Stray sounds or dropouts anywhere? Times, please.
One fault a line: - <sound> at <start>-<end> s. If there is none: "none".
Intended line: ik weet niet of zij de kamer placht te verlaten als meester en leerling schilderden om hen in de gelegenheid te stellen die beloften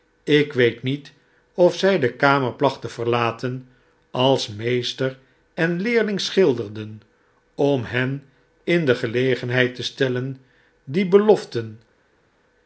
none